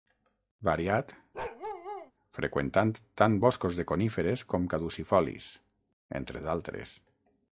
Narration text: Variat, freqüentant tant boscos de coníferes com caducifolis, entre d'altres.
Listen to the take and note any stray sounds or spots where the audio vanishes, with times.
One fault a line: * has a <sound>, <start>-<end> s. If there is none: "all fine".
* has a bark, 1.3-2.1 s